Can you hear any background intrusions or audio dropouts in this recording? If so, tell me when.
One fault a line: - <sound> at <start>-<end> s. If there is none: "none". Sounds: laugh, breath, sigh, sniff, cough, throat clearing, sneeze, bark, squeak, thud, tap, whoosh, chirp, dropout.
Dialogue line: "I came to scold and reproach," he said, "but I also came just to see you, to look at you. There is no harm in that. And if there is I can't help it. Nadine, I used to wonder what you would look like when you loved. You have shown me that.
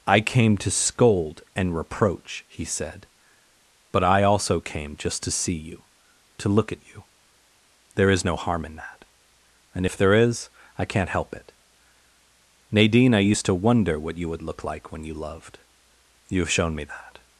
none